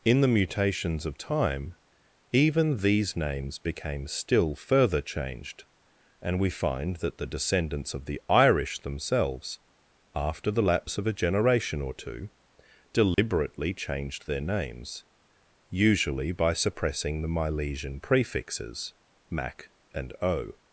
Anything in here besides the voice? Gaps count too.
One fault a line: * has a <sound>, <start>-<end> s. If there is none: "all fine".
* has a dropout, 13.1-13.2 s